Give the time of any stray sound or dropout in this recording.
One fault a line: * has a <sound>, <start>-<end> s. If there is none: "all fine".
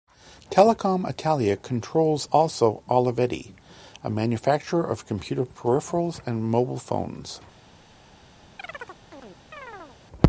* has a chirp, 8.6-10.0 s